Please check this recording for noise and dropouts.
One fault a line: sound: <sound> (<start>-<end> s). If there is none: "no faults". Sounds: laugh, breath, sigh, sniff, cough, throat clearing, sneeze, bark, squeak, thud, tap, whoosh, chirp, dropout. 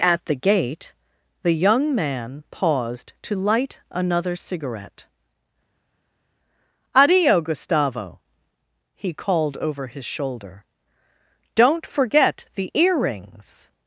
no faults